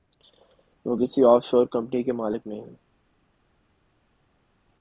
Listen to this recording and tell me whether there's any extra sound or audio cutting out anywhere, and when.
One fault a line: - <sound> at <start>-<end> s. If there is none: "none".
none